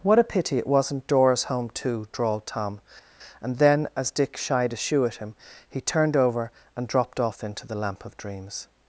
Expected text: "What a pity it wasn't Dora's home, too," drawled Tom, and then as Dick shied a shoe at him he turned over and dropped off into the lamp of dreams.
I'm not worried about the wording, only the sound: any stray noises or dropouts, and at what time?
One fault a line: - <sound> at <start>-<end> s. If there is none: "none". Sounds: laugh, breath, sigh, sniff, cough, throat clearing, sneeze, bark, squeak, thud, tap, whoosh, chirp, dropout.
none